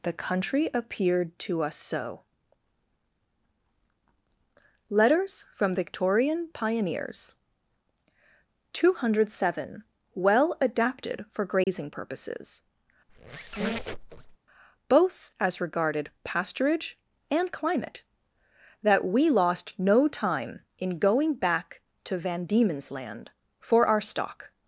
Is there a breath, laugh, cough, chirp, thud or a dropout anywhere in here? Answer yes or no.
yes